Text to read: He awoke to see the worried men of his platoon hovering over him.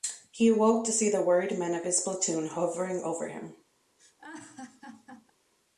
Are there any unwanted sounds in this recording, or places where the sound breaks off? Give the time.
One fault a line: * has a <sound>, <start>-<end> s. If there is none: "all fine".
* has a laugh, 4.0-5.3 s